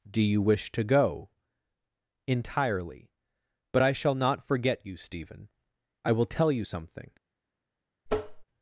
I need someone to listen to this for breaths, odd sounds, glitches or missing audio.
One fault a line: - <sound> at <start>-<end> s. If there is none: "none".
- tap at 8.1-8.5 s